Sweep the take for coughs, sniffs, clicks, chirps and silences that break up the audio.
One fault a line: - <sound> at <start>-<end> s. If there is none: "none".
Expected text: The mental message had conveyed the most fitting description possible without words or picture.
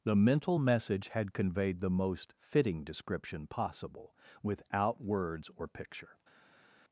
none